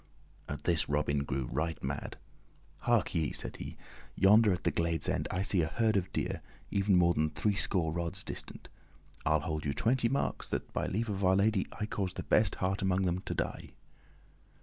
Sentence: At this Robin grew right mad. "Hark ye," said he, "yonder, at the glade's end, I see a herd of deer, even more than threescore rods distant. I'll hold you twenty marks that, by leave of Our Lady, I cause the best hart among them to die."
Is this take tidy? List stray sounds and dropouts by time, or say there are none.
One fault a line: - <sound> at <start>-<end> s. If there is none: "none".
none